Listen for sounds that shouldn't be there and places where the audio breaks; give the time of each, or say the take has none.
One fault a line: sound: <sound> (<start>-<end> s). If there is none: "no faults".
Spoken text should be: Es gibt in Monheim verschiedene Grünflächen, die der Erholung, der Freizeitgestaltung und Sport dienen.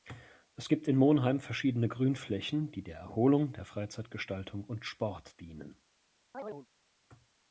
sound: chirp (6.3-6.7 s)